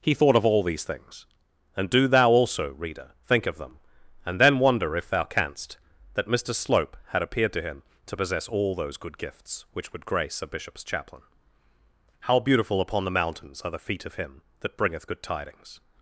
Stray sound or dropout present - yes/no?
no